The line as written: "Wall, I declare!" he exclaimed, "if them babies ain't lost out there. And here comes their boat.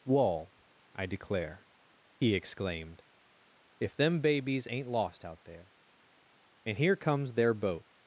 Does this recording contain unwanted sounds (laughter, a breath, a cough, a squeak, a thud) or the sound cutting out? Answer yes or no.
no